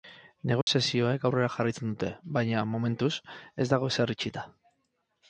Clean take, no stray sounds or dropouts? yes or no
no